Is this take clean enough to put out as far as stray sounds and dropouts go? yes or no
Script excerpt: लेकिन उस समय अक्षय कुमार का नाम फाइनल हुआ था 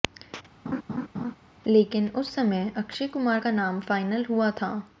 no